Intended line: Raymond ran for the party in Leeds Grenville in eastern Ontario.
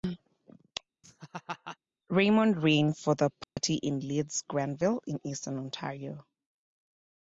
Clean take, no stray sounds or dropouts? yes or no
no